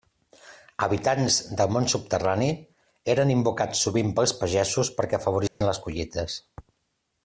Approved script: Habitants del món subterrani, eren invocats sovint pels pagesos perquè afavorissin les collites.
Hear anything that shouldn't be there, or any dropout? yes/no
yes